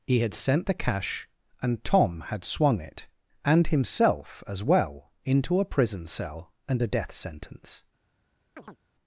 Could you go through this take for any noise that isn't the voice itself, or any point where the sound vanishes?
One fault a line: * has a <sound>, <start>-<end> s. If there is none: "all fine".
* has a chirp, 8.6-8.8 s